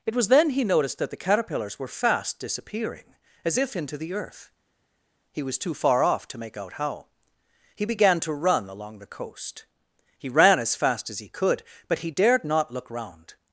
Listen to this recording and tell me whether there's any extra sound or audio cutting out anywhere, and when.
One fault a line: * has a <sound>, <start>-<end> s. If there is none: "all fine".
all fine